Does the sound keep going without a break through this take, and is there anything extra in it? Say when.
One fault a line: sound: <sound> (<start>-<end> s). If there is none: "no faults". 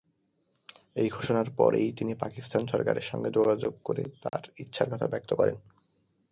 sound: dropout (4.3-4.3 s)